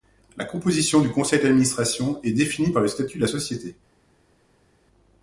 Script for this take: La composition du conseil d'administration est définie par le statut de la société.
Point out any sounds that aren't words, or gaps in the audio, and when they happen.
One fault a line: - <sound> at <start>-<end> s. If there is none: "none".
none